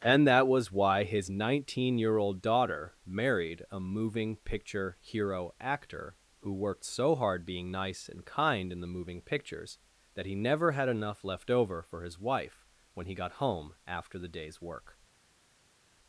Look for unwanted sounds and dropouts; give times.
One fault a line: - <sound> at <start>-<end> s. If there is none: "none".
none